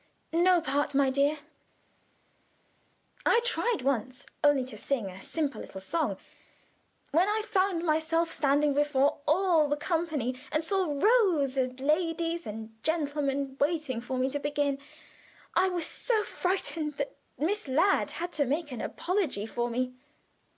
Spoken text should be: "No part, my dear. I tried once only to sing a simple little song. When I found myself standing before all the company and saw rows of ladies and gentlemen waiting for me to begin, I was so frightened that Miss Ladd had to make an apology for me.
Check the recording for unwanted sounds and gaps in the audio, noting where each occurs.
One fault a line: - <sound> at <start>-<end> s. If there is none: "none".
none